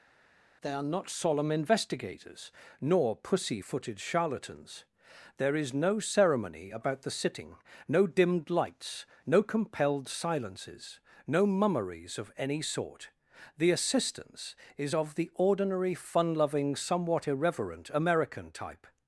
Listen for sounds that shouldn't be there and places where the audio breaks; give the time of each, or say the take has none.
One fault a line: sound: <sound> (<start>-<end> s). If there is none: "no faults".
no faults